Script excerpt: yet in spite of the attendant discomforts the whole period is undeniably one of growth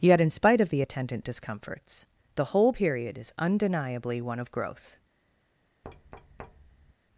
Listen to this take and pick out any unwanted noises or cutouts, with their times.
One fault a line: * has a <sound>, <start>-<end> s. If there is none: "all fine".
* has a thud, 5.8-6.9 s